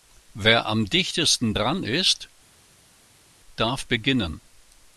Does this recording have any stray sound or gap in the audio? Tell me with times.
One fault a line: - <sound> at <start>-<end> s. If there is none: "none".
none